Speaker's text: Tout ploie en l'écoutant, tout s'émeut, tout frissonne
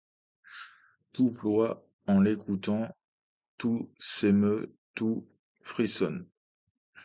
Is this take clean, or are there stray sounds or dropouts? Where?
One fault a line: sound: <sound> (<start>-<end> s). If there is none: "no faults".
no faults